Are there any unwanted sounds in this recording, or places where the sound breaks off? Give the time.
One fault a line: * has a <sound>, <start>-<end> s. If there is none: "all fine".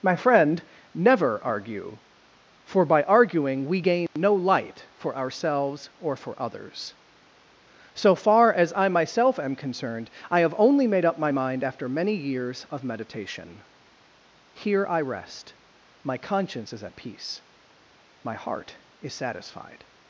* has a dropout, 4.1-4.2 s